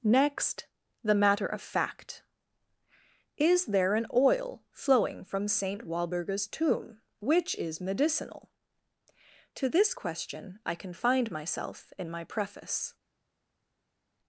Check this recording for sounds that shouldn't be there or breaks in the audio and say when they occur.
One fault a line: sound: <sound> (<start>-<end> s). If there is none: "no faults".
no faults